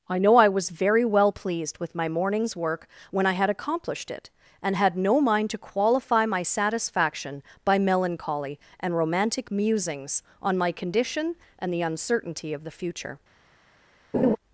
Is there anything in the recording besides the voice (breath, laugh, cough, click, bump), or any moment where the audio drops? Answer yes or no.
yes